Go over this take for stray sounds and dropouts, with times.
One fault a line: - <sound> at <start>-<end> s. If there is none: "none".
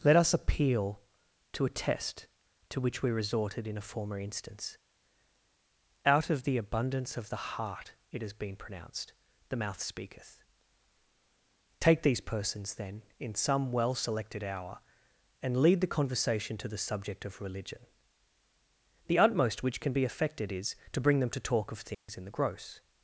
- dropout at 21.9-22.1 s